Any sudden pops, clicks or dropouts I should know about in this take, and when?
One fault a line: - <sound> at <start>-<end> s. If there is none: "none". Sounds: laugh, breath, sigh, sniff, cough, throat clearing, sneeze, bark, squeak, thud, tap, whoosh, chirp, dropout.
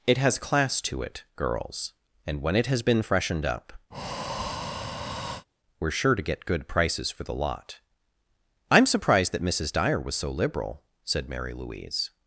- breath at 3.9-5.5 s